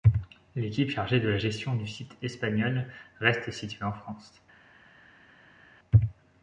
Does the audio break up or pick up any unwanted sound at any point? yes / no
no